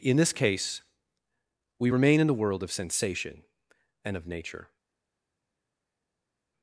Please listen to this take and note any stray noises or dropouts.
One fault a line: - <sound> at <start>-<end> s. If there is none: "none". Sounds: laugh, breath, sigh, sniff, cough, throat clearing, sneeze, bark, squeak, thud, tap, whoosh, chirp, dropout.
none